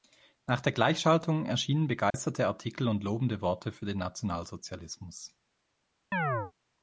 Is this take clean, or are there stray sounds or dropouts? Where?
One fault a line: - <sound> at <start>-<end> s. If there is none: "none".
- dropout at 2.1-2.1 s
- chirp at 6.1-6.5 s